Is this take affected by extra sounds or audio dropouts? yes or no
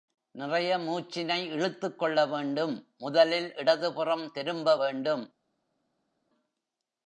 no